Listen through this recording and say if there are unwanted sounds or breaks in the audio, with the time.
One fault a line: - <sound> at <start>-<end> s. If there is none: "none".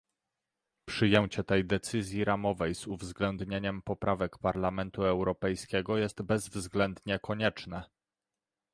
none